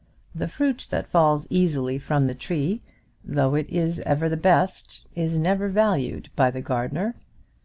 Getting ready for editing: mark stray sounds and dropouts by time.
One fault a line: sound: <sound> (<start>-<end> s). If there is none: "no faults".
no faults